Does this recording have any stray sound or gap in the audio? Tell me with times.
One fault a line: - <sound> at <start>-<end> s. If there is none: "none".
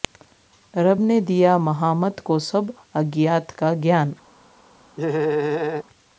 - laugh at 5.0-5.8 s